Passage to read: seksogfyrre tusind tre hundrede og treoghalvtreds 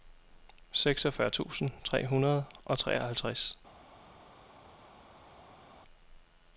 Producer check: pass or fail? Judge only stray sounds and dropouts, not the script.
pass